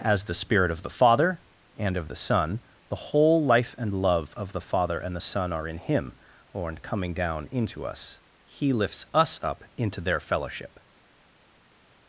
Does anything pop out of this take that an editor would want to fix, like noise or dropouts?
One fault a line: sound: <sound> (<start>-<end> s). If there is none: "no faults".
no faults